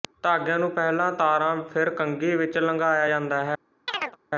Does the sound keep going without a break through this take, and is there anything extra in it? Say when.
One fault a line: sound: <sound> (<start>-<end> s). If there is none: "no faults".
sound: chirp (3.9-4.2 s)